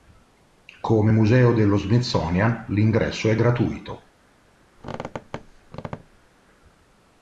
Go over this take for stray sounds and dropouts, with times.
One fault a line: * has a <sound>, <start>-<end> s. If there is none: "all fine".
* has a squeak, 4.8-6.3 s